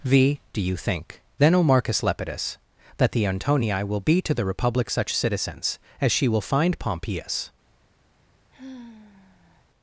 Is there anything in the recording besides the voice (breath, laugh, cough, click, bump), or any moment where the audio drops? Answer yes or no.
yes